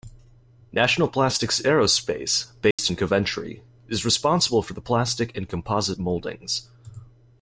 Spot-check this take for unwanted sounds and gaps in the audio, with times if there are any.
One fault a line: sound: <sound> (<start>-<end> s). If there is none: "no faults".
sound: dropout (2.7-2.8 s)